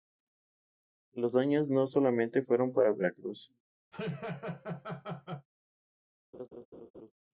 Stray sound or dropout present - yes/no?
yes